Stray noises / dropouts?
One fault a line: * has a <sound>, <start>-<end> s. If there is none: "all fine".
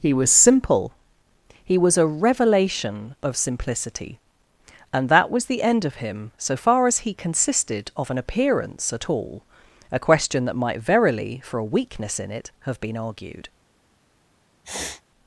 * has a sniff, 14.6-15.0 s